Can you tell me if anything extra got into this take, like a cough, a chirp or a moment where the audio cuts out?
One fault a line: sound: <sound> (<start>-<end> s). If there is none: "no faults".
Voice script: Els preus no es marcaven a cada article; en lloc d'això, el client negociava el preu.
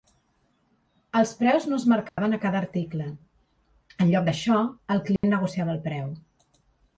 sound: dropout (2.1-2.2 s)
sound: dropout (5.2-5.2 s)